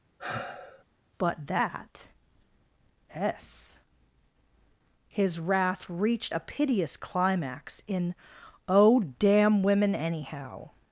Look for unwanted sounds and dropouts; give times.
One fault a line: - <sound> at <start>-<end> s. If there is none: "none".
- sigh at 0.2-0.8 s